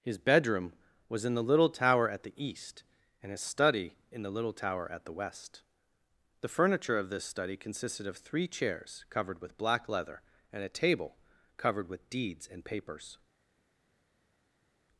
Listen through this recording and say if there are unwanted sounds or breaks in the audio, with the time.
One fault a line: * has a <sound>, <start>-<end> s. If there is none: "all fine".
all fine